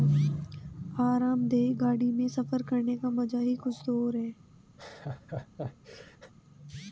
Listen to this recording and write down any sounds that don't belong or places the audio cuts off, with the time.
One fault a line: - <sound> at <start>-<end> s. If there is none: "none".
- laugh at 4.8-6.3 s